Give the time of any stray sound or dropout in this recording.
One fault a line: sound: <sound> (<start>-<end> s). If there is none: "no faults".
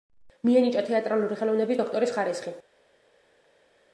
no faults